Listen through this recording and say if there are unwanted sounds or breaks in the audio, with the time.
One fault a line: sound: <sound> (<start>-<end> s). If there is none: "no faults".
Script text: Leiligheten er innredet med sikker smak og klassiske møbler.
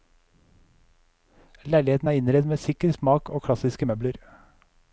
no faults